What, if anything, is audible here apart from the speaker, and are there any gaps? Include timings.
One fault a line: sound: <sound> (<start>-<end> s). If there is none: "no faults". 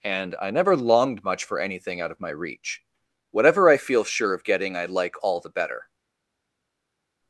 no faults